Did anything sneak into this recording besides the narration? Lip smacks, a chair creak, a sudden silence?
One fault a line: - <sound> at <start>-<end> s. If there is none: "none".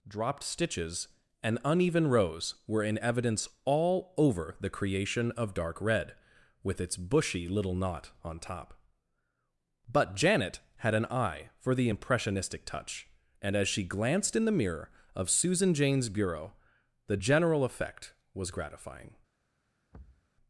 - thud at 19.9-20.3 s